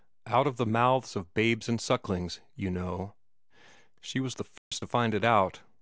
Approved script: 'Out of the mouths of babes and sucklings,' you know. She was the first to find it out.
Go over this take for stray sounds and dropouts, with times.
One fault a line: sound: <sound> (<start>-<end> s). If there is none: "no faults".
sound: dropout (4.6-4.7 s)